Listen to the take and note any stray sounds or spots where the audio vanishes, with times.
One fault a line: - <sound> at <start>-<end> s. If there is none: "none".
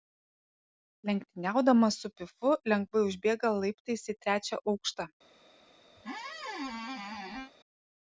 - squeak at 6.0-7.5 s